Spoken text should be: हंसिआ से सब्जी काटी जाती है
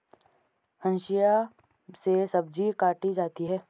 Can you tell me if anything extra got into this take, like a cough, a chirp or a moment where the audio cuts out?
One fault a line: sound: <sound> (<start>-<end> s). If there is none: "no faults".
no faults